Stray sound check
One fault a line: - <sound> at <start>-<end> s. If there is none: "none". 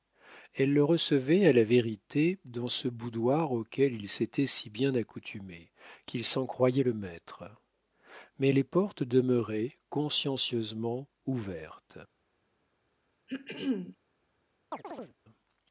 - throat clearing at 13.3-14.0 s
- chirp at 14.7-15.1 s